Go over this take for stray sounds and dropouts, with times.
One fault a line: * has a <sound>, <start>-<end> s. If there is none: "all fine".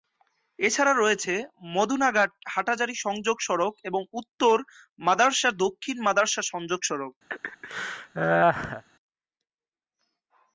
* has a laugh, 7.3-8.8 s